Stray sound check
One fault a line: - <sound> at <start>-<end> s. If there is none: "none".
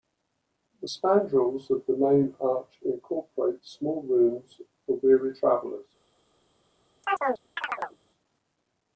- chirp at 7.0-8.0 s